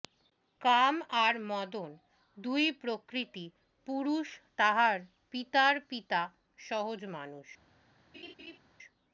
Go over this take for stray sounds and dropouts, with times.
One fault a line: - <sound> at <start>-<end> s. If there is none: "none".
- laugh at 8.1-8.6 s